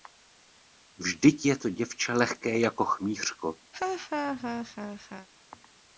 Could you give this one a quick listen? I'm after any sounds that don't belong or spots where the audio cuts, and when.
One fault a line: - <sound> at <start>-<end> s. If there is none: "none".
- laugh at 3.7-5.3 s